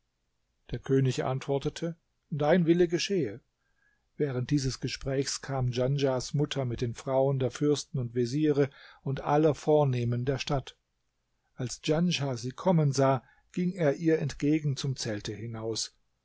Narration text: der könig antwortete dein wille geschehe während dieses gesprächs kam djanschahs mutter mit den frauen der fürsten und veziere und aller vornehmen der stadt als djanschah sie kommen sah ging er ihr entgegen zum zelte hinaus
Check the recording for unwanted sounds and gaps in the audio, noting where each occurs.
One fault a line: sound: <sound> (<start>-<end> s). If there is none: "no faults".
no faults